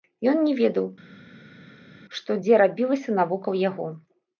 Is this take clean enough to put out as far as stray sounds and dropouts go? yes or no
yes